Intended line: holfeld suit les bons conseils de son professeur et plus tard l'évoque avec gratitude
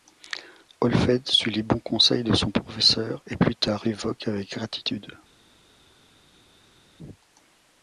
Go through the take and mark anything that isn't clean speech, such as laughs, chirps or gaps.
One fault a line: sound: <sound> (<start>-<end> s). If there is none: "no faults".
no faults